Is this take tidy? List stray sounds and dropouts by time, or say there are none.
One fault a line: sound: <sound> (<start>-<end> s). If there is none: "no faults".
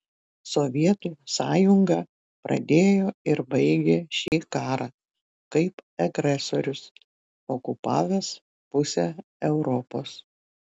sound: dropout (4.3-4.3 s)